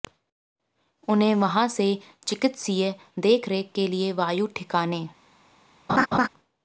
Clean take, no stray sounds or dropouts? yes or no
no